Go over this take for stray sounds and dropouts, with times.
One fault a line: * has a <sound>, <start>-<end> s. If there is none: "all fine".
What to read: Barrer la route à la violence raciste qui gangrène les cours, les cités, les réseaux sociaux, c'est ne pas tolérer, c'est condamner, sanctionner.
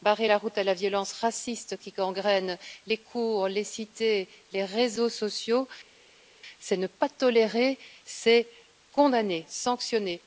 all fine